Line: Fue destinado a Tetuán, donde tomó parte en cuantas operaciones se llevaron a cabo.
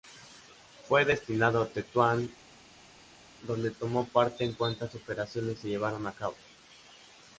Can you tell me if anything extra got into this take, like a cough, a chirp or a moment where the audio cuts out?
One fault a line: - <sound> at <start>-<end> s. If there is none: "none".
none